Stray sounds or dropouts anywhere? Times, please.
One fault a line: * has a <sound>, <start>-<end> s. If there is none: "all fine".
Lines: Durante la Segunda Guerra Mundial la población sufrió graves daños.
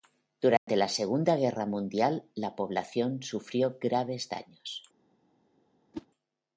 * has a dropout, 0.6-0.7 s
* has a whoosh, 5.9-6.1 s